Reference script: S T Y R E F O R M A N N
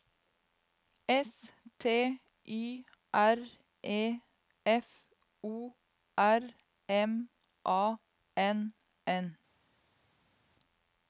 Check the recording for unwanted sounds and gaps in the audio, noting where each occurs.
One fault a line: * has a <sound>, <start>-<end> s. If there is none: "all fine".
all fine